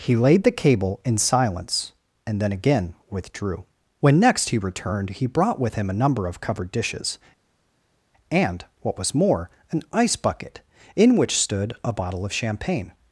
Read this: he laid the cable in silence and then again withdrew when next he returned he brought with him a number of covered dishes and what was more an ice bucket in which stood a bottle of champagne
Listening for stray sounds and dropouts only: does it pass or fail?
pass